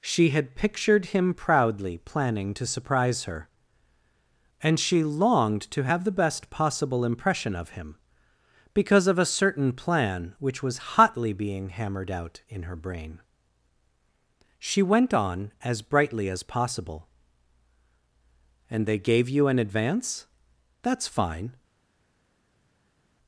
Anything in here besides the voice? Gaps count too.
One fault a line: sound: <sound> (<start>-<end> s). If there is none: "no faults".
no faults